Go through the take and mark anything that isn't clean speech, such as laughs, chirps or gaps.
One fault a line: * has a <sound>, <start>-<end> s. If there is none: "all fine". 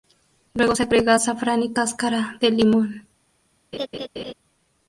* has a laugh, 3.7-4.3 s